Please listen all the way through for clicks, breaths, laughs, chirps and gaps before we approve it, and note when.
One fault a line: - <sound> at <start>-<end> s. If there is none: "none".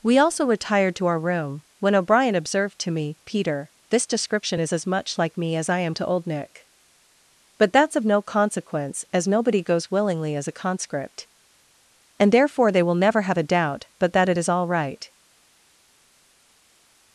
none